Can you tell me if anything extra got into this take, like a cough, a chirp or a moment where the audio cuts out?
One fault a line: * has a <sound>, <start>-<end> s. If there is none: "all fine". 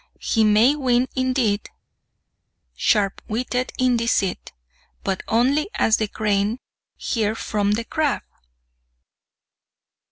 all fine